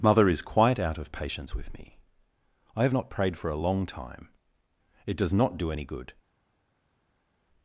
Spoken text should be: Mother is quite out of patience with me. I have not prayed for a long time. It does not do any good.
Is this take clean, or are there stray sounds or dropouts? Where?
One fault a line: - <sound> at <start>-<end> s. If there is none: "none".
none